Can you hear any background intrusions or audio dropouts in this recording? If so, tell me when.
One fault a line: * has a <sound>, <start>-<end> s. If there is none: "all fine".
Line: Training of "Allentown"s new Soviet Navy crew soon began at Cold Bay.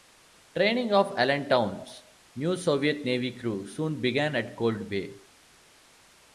all fine